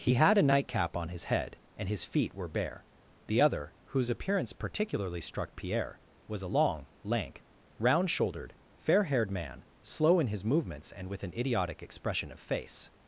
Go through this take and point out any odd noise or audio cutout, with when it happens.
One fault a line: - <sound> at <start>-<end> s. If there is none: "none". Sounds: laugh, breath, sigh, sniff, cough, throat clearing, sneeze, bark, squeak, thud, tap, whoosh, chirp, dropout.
none